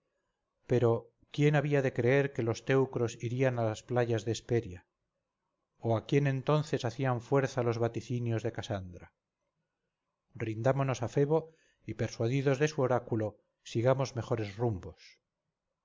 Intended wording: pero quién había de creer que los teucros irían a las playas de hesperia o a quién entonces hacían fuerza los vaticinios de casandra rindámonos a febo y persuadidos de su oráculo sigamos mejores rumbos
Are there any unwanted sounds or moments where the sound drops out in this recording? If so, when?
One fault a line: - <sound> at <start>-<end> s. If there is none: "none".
none